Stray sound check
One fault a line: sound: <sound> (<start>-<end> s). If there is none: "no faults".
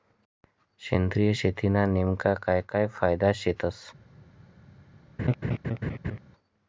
sound: laugh (5.2-6.2 s)